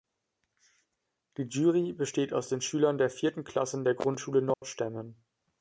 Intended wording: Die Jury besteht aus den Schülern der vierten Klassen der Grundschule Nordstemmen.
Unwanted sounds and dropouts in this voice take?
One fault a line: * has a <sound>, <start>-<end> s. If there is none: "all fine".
* has a dropout, 4.5-4.6 s